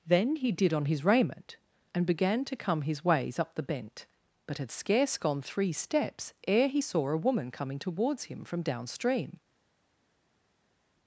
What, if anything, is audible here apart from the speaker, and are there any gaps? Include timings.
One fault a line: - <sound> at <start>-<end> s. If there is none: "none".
none